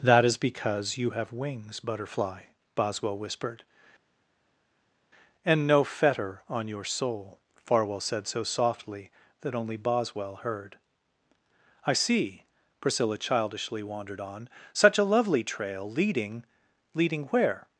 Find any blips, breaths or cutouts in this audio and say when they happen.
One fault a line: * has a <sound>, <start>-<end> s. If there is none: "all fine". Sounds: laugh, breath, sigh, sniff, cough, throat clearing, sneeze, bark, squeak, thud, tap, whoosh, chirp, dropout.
all fine